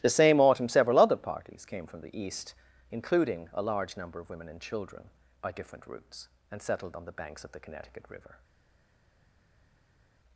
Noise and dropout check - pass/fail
pass